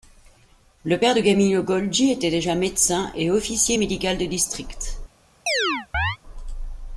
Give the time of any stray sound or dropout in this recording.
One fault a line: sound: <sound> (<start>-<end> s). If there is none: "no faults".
sound: chirp (5.5-6.2 s)